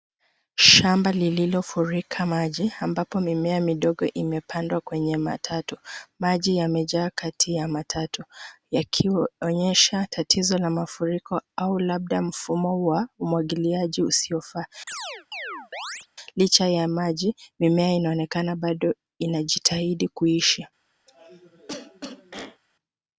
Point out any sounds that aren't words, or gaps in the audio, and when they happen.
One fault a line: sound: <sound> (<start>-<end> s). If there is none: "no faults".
sound: chirp (14.9-16.1 s)
sound: cough (21.1-22.6 s)